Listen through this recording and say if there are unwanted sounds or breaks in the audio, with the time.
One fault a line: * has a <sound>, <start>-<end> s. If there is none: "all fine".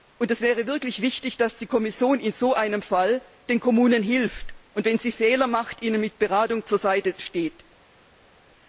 all fine